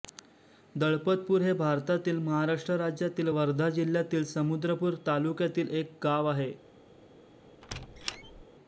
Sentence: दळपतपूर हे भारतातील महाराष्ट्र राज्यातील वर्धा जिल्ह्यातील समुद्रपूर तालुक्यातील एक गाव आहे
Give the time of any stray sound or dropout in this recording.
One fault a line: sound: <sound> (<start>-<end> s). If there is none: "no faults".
sound: squeak (7.6-8.4 s)